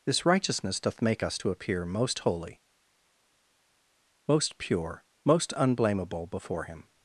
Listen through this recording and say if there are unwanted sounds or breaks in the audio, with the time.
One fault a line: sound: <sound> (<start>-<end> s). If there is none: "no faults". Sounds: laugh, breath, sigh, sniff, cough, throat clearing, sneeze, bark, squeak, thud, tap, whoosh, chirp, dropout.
no faults